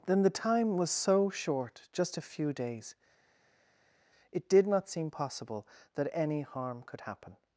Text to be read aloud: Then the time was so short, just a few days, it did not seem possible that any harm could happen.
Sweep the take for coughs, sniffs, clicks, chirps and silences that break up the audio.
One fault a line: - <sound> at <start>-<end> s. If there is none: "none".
none